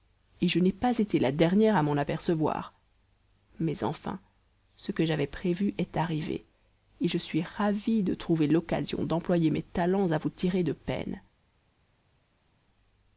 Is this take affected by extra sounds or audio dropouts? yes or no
no